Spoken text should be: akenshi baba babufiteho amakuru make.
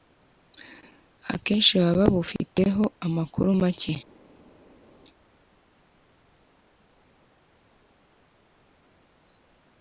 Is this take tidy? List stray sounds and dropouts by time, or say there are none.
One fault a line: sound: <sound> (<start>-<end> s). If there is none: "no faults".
no faults